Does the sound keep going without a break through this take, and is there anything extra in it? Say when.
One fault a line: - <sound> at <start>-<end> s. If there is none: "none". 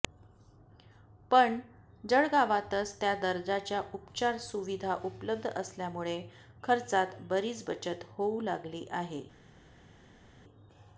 none